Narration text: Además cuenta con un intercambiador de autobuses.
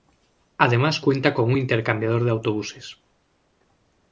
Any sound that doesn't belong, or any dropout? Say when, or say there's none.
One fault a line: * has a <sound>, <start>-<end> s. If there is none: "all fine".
all fine